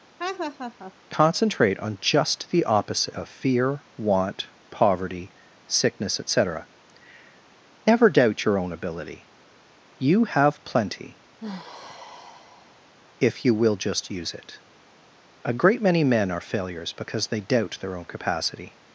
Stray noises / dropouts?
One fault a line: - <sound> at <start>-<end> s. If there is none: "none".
- laugh at 0.2-0.9 s
- sigh at 11.4-12.9 s